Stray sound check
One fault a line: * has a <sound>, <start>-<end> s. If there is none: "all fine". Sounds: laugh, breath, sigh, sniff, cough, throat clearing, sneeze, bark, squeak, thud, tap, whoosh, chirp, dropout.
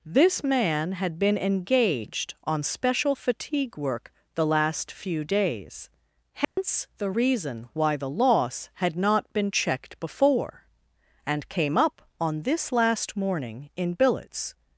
* has a dropout, 6.4-6.6 s